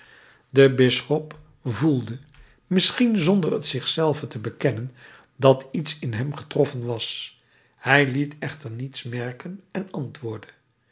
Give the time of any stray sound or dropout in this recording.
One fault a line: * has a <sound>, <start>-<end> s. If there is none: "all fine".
all fine